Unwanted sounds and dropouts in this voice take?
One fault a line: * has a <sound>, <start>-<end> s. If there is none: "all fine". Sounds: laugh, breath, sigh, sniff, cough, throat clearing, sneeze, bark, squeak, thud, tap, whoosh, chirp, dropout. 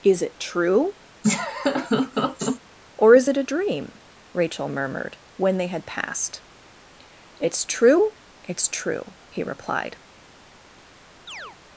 * has a laugh, 1.2-2.6 s
* has a chirp, 11.3-11.6 s